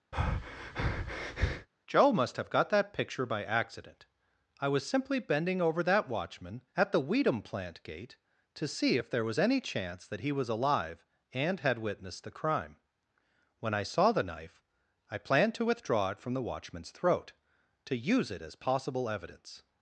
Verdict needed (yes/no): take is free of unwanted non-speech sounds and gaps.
no